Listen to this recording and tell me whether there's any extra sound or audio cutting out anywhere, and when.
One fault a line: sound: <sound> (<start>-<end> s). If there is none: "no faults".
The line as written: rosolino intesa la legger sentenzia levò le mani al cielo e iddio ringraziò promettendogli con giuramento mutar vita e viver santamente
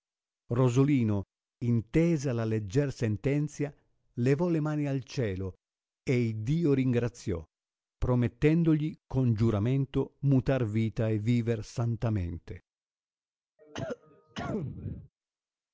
sound: cough (13.6-15.1 s)